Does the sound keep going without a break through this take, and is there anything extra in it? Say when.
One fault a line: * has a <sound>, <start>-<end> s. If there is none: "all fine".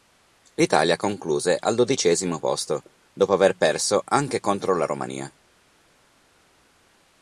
all fine